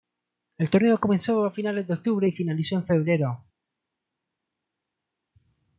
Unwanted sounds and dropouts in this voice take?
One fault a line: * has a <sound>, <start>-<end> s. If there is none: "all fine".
all fine